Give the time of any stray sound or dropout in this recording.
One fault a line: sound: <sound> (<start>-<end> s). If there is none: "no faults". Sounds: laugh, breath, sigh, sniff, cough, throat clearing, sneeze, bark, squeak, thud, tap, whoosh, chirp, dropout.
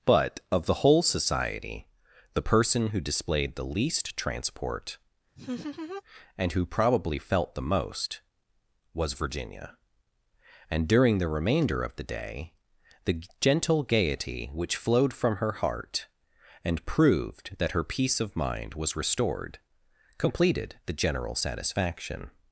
sound: laugh (5.4-6.0 s)